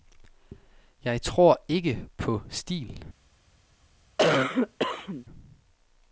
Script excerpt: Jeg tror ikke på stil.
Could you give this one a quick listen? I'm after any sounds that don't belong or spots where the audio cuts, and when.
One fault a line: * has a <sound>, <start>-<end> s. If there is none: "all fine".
* has a cough, 4.2-5.2 s